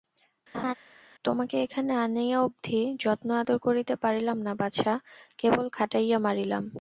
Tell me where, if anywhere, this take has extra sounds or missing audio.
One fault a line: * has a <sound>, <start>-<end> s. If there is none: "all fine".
* has a laugh, 0.5-0.7 s